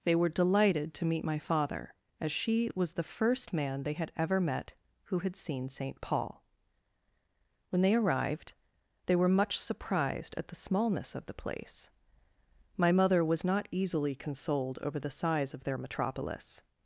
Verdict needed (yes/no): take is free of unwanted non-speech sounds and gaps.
yes